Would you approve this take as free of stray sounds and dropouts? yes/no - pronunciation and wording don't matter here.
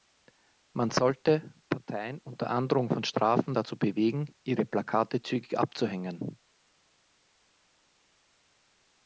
yes